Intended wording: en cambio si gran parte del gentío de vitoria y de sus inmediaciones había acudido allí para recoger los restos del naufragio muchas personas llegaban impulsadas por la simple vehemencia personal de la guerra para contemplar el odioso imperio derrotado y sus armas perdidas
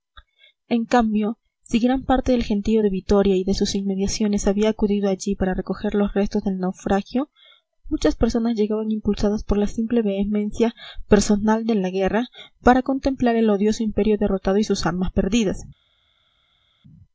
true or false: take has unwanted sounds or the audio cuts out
false